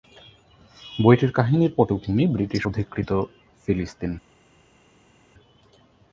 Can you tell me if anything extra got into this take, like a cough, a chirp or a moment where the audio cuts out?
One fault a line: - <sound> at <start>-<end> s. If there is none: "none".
none